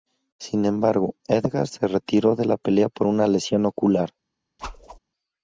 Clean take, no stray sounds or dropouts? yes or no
no